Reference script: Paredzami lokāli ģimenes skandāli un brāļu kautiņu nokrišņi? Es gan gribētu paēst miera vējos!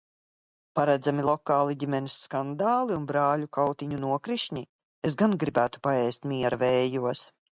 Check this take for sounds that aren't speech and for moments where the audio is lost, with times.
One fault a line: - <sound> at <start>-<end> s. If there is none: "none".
none